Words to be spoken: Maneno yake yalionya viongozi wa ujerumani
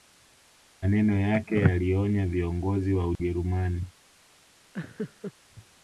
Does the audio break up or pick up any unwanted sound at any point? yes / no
yes